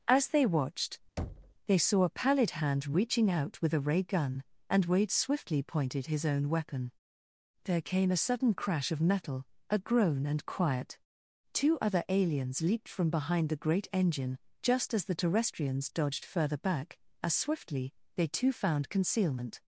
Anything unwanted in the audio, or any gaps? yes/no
yes